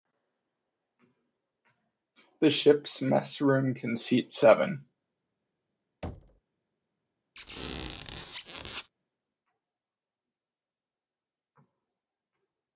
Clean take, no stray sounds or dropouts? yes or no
no